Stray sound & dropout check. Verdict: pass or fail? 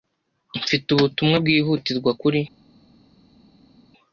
pass